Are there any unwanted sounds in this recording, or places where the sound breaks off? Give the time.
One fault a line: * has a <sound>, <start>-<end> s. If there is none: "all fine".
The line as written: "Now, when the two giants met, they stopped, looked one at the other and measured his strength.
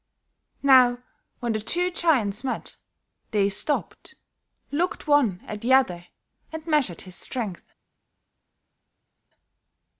all fine